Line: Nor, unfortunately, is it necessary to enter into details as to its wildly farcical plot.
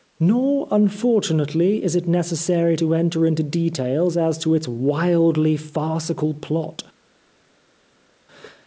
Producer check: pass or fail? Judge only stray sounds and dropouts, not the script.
pass